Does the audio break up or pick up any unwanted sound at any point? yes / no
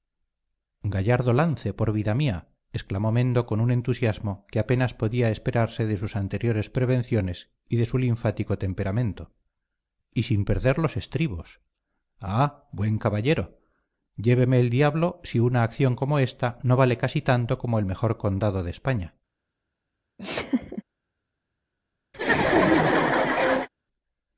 yes